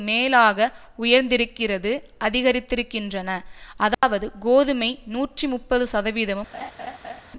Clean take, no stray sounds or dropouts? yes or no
no